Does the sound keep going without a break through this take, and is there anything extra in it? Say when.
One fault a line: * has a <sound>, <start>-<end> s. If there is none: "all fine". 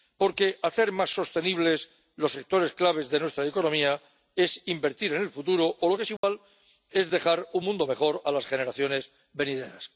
* has a dropout, 6.2-6.2 s